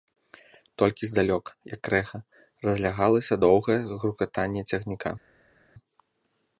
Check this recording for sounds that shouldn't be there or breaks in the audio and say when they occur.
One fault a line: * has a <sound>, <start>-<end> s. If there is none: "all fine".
all fine